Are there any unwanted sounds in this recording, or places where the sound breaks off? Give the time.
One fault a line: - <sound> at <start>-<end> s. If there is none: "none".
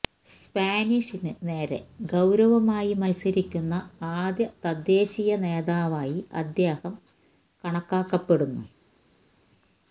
none